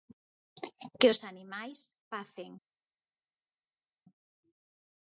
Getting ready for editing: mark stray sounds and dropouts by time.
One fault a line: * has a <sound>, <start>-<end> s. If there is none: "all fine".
all fine